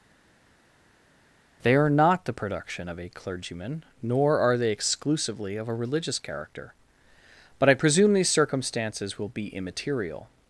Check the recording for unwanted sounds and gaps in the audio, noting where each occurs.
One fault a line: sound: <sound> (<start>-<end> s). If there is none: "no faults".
no faults